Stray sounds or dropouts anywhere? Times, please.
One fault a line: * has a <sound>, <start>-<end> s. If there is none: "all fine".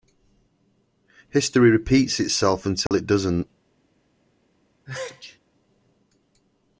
* has a dropout, 2.9-2.9 s
* has a sneeze, 4.9-5.4 s